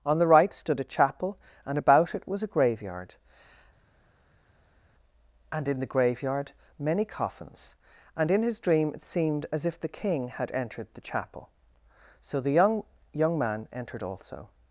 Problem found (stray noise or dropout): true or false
false